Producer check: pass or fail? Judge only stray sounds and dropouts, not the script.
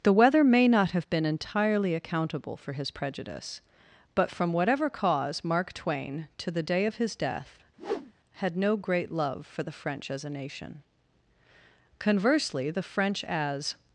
fail